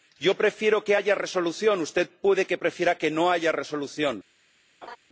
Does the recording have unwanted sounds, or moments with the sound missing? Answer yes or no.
yes